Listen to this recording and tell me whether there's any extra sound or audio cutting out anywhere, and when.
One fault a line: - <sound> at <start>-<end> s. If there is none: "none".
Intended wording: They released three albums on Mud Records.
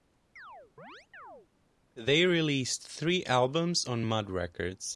- chirp at 0.4-1.5 s